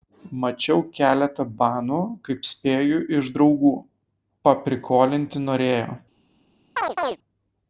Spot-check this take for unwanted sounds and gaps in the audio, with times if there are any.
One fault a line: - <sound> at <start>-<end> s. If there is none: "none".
- chirp at 6.8-7.2 s